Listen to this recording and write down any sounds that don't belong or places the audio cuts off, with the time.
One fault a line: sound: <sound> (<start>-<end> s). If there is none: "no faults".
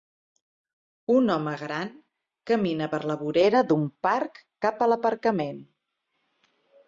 no faults